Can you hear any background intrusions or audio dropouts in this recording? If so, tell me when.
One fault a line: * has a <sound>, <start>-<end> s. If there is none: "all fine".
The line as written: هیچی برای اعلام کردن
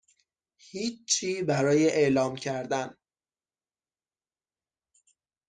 all fine